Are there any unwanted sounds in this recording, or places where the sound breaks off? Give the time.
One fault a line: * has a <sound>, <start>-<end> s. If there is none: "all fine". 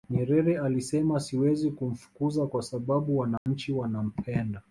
* has a dropout, 3.4-3.5 s